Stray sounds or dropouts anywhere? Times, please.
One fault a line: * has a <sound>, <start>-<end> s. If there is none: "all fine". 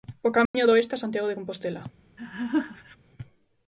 * has a dropout, 0.5-0.5 s
* has a laugh, 2.2-3.0 s